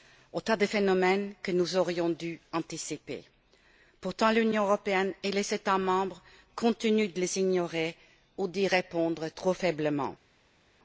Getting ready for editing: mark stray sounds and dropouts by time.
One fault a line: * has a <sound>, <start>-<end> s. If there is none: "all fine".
all fine